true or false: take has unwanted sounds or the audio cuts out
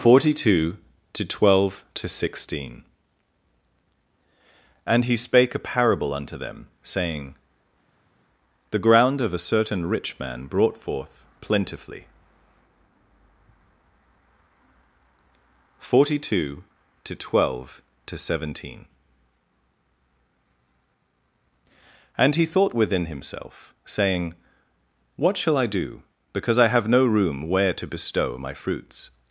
false